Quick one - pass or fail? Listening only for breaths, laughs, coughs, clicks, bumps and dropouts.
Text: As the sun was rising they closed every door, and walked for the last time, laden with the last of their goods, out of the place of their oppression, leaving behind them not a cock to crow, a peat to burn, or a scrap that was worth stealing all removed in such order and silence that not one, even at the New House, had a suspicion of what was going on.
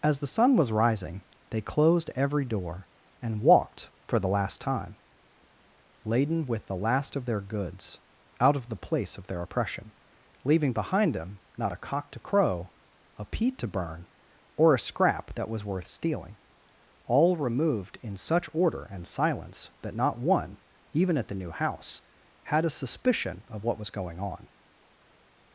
pass